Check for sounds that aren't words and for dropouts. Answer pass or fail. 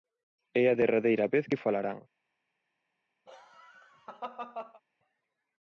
fail